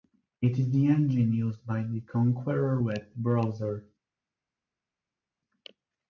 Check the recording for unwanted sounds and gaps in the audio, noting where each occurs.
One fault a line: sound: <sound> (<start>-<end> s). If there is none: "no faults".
no faults